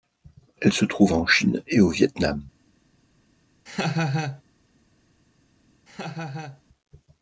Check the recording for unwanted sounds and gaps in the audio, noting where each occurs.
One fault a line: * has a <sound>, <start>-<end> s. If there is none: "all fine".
* has a laugh, 3.7-4.4 s
* has a laugh, 5.9-6.6 s